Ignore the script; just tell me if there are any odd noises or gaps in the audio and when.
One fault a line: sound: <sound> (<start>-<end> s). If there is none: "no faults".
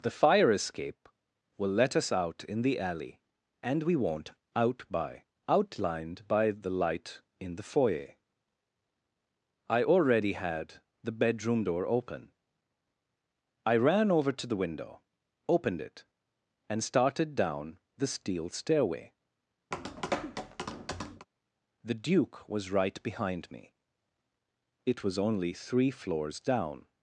sound: tap (19.7-21.3 s)